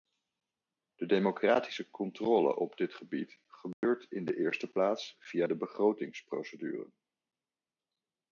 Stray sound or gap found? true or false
true